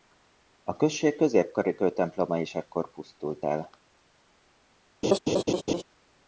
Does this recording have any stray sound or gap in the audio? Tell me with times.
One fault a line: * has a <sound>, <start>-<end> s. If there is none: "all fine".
* has a laugh, 5.0-5.8 s